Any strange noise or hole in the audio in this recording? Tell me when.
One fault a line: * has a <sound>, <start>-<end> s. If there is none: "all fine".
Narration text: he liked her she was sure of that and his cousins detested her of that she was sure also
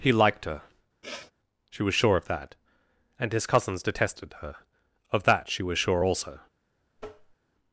* has a sniff, 1.0-1.3 s
* has a tap, 7.0-7.4 s